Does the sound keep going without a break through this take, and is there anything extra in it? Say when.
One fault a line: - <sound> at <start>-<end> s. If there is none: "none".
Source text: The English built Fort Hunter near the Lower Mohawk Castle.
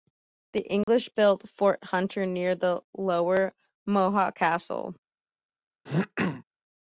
- dropout at 0.8-0.9 s
- throat clearing at 5.9-6.4 s